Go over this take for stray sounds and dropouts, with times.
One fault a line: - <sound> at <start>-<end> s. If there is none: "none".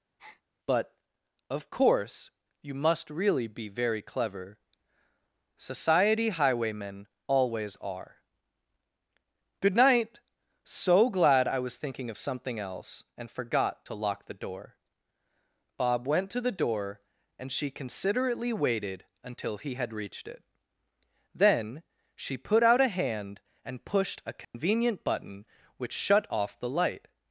- breath at 0.2-0.4 s
- dropout at 24.4-24.5 s